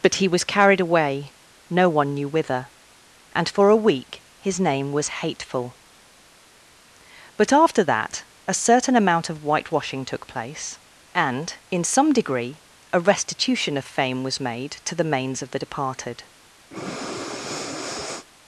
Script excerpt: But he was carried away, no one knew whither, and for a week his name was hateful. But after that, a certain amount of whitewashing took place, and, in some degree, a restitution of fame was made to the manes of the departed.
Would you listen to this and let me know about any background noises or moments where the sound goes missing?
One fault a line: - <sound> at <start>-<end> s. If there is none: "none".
- breath at 16.7-18.3 s